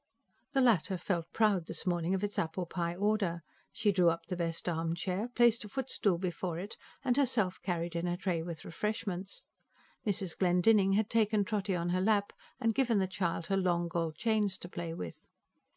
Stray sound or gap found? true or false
false